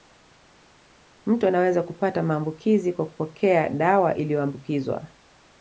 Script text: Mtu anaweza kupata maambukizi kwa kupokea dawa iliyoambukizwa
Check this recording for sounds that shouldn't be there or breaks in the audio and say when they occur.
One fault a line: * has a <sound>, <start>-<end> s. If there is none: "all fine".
all fine